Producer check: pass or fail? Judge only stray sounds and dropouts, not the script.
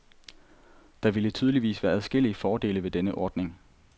pass